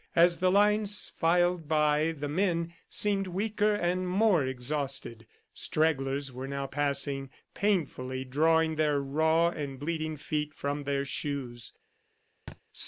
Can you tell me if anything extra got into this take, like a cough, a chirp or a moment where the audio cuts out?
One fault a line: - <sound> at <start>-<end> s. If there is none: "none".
- thud at 12.5-12.6 s